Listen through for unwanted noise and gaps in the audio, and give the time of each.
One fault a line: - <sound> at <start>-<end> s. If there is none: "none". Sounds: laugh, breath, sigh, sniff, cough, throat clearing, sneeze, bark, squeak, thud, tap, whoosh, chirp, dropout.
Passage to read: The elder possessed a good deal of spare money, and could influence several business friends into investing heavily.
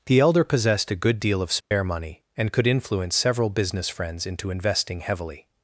- dropout at 1.6-1.7 s